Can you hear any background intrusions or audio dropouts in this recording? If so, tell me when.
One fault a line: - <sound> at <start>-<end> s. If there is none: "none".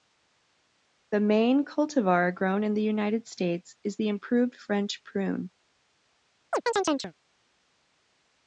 - chirp at 6.5-7.1 s